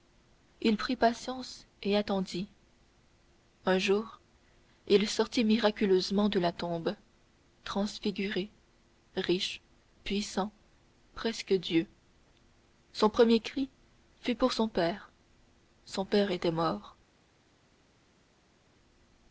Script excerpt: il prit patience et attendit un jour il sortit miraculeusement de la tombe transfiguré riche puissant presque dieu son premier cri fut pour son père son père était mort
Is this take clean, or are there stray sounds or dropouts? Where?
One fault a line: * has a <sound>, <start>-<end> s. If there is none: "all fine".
all fine